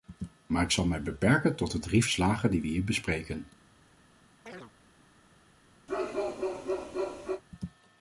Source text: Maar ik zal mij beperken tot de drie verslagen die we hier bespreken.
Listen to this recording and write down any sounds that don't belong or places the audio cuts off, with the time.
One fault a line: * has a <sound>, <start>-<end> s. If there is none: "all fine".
* has a chirp, 4.5-4.7 s
* has a bark, 5.9-7.4 s